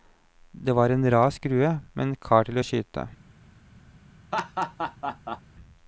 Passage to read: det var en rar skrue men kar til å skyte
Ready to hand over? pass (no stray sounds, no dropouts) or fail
fail